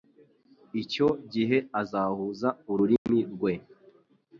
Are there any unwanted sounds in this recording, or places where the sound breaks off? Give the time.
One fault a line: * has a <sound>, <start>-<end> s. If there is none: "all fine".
* has a dropout, 3.0-3.1 s